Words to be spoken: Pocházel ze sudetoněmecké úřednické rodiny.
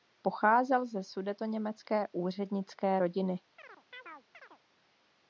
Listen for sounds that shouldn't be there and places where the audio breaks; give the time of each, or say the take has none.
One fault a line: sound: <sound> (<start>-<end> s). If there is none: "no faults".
sound: chirp (3.6-4.6 s)